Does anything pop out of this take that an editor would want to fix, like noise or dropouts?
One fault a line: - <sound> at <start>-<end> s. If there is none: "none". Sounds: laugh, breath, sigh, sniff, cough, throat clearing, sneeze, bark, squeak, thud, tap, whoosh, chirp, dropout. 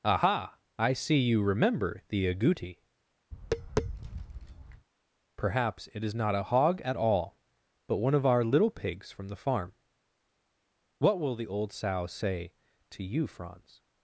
- tap at 3.3-4.9 s